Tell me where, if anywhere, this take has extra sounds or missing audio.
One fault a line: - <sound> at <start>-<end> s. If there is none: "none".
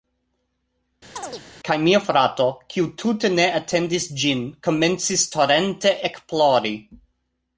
- chirp at 1.2-1.4 s